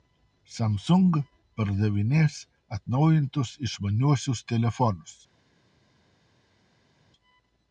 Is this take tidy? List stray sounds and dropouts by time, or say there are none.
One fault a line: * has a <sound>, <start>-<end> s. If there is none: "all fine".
all fine